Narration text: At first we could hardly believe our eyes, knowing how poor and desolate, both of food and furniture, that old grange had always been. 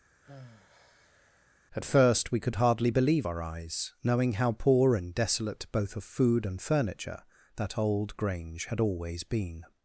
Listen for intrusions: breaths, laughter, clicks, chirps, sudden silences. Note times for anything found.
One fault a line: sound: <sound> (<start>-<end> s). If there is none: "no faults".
sound: sigh (0.2-1.6 s)